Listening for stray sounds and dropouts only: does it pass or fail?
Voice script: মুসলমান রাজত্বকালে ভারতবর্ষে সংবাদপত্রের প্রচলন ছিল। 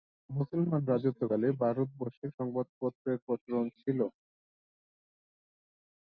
pass